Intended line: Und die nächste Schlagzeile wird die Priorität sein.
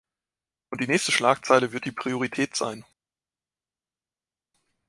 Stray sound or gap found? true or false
false